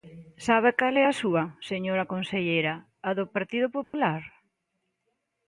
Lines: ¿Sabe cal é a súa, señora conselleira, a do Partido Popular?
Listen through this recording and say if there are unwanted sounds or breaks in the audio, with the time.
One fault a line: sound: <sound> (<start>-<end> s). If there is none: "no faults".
sound: dropout (3.8-3.9 s)